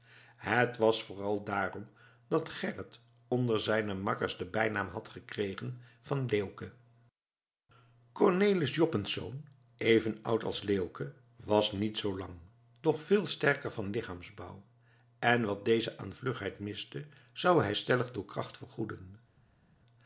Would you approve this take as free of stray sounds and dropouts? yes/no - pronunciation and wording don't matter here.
yes